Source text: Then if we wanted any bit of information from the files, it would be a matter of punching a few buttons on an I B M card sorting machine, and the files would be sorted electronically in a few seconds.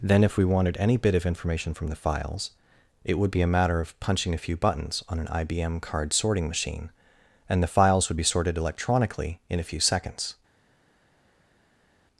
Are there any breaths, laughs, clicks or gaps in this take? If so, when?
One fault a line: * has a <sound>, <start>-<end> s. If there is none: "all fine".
all fine